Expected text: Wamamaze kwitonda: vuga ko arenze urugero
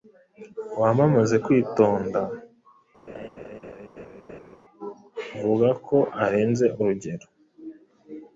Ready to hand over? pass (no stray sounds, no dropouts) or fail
fail